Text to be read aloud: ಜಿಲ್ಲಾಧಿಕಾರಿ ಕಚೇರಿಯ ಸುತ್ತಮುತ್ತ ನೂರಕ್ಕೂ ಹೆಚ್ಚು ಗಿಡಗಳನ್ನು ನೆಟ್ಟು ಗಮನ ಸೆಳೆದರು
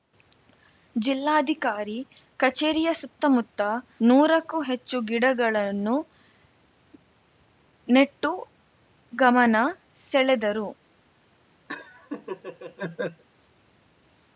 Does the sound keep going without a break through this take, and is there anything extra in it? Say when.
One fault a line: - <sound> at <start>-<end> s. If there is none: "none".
- laugh at 11.7-13.2 s